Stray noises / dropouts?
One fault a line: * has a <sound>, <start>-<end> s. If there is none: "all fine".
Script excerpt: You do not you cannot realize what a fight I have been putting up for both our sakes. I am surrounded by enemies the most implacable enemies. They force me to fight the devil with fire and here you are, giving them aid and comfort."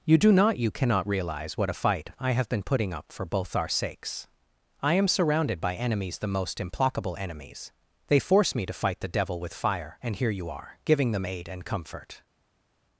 all fine